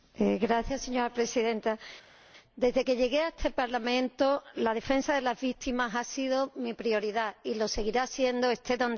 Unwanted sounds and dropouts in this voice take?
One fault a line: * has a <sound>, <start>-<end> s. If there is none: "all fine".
all fine